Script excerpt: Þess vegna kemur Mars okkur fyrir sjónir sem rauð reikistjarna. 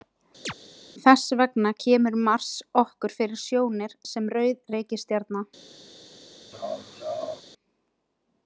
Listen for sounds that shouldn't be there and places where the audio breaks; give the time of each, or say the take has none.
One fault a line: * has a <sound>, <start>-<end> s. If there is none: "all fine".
* has a chirp, 0.4-0.5 s
* has a laugh, 6.5-7.4 s